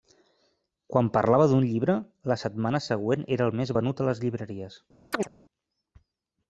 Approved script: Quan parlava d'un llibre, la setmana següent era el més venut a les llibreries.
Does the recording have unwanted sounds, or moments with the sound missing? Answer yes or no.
yes